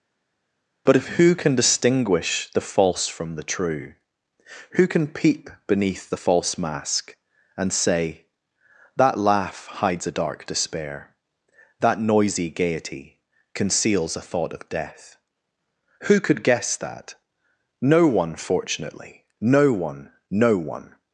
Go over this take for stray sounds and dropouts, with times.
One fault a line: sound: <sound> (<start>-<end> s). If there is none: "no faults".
no faults